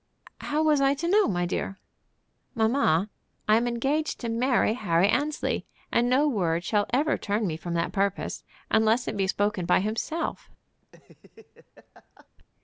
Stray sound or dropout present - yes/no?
yes